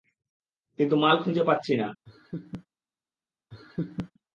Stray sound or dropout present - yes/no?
yes